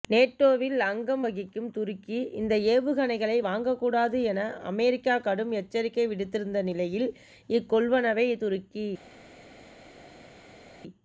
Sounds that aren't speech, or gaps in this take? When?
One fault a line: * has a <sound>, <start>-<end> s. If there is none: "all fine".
all fine